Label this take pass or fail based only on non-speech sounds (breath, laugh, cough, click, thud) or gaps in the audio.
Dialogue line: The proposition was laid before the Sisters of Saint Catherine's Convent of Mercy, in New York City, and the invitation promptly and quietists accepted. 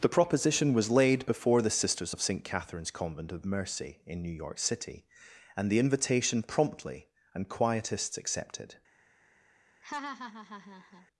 fail